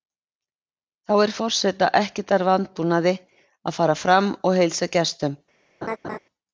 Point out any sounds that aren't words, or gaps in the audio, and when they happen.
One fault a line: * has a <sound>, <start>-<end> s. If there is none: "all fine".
* has a laugh, 5.8-6.2 s